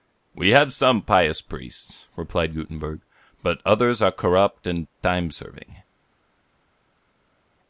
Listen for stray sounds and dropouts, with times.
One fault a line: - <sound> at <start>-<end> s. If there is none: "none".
none